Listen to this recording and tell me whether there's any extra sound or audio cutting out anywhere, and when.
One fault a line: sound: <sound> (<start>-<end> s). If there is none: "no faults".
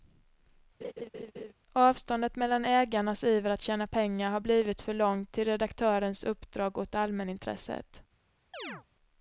sound: laugh (0.8-1.5 s)
sound: chirp (8.5-8.8 s)